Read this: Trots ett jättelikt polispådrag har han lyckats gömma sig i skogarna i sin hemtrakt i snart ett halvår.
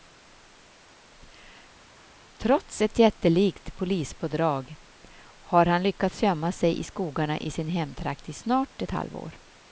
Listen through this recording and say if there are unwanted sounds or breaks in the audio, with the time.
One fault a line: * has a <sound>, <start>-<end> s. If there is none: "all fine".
all fine